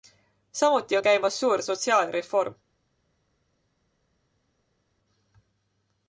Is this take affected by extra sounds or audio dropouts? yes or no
no